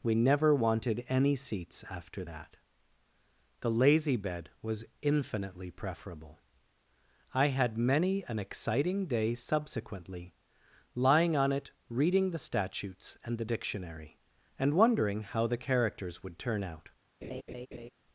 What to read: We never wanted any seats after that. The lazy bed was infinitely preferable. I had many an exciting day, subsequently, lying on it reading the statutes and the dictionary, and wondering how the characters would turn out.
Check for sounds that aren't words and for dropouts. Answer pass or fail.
fail